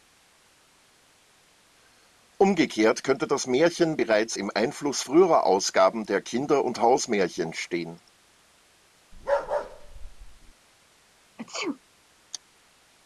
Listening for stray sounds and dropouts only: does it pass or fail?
fail